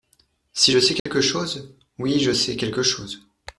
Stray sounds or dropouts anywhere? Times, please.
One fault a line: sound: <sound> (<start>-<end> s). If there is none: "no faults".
sound: dropout (1.0-1.1 s)